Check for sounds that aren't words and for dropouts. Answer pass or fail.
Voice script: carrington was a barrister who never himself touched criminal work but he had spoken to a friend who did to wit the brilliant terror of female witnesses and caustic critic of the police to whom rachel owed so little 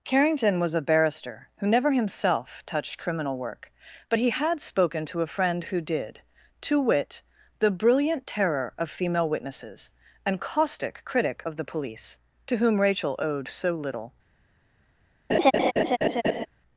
fail